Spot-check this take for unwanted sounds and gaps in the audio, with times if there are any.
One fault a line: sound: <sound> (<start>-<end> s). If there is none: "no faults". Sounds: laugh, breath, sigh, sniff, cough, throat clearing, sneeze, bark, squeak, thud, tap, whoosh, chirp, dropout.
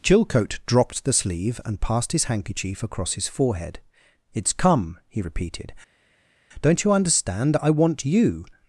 no faults